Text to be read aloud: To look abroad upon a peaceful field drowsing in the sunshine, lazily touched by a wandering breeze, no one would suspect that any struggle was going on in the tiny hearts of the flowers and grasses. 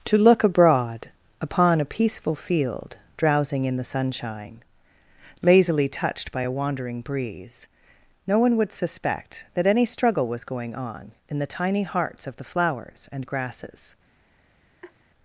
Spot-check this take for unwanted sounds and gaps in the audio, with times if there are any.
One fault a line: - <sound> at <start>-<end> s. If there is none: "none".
- laugh at 14.8-14.9 s